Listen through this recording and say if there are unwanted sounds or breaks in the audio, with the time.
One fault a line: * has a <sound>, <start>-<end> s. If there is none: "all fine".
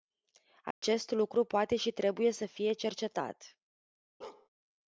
* has a dropout, 0.7-0.8 s
* has a bark, 4.2-4.5 s